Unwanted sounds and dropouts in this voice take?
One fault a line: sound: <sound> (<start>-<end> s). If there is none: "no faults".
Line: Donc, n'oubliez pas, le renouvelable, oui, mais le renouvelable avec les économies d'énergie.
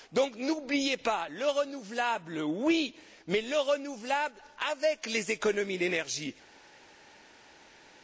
no faults